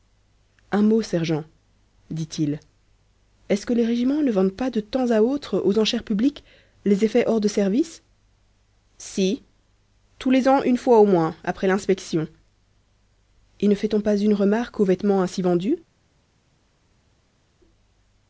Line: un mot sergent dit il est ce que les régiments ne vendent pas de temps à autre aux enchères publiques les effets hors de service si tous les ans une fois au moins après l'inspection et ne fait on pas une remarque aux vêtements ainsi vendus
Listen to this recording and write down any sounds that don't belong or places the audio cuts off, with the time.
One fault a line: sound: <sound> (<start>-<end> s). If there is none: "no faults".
no faults